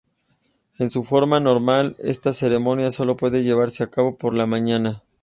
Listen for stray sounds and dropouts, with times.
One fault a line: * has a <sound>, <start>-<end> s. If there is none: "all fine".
all fine